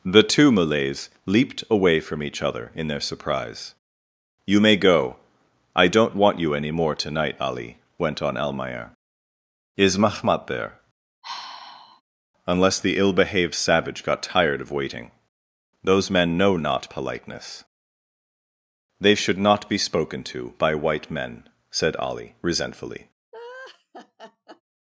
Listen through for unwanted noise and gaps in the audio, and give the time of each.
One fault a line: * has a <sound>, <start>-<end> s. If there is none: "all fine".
* has a sigh, 11.2-12.0 s
* has a laugh, 23.3-24.6 s